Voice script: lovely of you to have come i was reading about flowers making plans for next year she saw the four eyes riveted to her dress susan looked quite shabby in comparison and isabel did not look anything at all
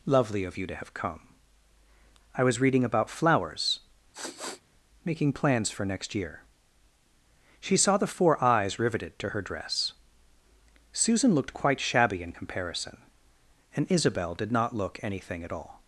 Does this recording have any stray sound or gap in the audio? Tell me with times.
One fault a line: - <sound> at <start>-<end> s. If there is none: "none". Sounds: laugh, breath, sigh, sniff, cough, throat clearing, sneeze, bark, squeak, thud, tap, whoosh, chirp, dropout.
- sniff at 4.1-4.6 s